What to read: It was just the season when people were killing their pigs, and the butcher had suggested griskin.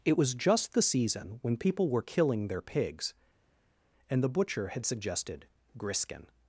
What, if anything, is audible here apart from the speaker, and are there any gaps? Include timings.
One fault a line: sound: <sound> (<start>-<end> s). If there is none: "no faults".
no faults